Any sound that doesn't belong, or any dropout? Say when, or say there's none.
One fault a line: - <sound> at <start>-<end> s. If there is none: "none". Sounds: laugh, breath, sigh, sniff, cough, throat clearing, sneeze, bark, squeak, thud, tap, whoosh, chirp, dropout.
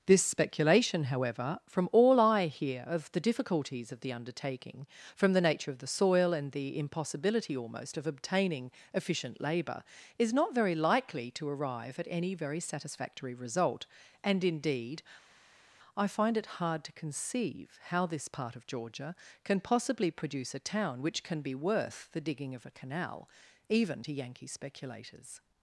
none